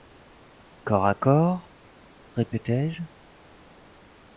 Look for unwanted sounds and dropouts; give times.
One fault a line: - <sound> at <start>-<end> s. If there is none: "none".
none